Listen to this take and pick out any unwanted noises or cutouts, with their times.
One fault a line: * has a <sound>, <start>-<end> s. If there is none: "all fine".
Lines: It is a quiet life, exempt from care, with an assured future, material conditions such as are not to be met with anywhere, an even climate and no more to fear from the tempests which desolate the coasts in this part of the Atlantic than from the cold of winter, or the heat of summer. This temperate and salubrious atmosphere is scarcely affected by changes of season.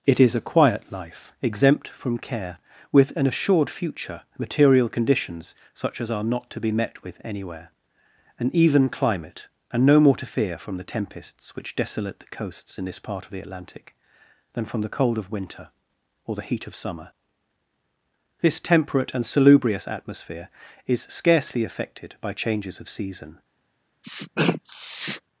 * has a sniff, 24.0-25.2 s